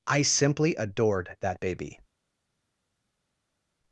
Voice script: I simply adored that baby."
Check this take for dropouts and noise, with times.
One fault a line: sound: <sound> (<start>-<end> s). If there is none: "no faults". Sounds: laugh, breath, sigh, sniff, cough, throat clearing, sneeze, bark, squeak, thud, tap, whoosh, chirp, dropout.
no faults